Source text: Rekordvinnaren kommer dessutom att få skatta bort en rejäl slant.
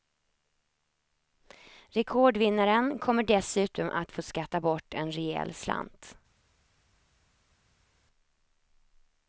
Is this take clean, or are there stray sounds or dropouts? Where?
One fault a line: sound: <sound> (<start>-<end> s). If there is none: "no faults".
no faults